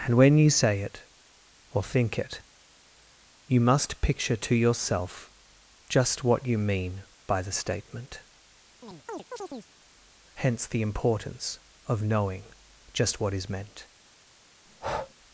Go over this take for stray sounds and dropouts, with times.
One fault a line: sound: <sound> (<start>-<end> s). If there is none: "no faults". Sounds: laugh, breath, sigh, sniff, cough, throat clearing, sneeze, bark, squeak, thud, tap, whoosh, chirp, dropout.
sound: chirp (8.8-9.7 s)
sound: breath (14.7-15.1 s)